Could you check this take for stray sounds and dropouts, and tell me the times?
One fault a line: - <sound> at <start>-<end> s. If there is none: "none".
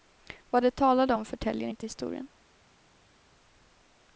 none